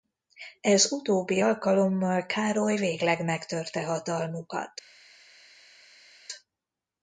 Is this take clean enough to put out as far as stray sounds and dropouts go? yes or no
yes